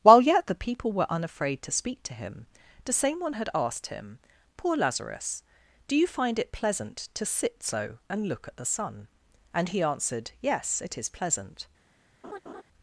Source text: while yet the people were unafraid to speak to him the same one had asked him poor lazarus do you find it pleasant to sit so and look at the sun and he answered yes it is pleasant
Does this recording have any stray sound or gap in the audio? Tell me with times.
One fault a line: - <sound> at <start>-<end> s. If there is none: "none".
- laugh at 12.2-12.6 s